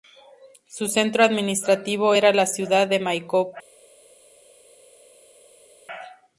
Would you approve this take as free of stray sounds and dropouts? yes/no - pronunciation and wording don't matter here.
yes